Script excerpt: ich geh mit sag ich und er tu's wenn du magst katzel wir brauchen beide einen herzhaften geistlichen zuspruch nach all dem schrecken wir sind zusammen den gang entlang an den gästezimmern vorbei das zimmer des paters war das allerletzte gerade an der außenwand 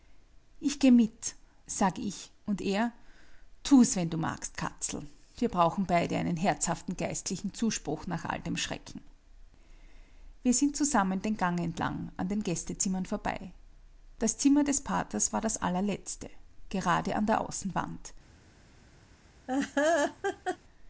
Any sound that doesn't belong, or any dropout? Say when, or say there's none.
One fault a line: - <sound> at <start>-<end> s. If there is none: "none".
- laugh at 19.5-20.6 s